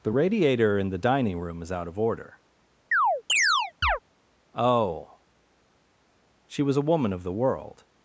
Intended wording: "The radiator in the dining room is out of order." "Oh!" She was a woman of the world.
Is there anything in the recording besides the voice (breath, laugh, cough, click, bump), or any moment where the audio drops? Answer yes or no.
yes